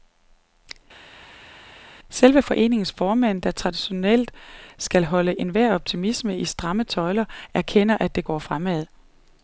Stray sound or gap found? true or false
false